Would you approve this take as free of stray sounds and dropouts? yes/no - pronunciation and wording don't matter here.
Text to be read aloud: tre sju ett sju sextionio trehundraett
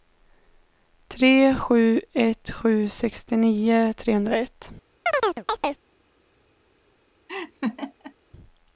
no